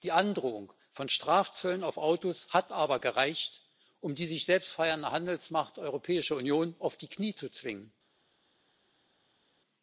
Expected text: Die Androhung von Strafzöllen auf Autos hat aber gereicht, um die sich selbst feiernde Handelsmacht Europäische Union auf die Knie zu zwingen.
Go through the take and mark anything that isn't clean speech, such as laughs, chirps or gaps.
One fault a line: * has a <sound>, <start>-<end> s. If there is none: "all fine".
all fine